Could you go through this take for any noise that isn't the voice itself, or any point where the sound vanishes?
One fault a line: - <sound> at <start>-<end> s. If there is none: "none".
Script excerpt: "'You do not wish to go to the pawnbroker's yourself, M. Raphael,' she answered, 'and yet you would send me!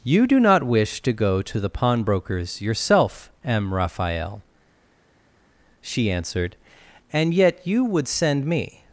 none